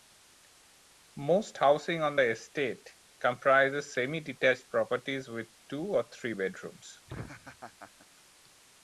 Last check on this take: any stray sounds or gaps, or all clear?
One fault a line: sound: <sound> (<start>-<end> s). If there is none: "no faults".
sound: laugh (7.1-8.1 s)